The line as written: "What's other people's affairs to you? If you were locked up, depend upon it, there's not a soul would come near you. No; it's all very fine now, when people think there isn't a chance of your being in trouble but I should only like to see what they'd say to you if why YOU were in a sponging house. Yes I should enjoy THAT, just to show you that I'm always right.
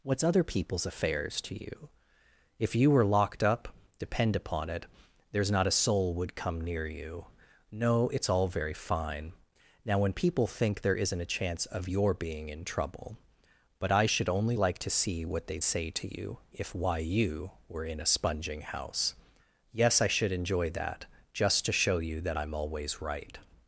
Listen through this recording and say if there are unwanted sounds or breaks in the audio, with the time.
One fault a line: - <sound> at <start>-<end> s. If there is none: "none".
none